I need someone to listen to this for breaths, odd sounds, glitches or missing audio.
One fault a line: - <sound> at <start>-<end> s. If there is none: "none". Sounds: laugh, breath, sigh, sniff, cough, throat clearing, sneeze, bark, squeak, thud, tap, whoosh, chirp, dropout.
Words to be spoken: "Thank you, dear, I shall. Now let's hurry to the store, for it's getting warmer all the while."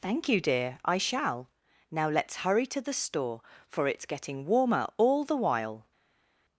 none